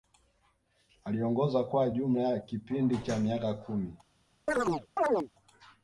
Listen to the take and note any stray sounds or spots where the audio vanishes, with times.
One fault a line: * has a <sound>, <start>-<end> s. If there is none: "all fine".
* has a chirp, 4.5-5.3 s